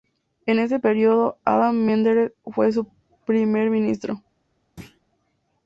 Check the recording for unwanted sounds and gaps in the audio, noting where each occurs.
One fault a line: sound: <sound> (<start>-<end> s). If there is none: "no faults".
sound: thud (4.8-5.0 s)